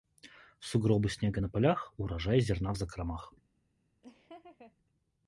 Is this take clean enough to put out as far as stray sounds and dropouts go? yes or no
no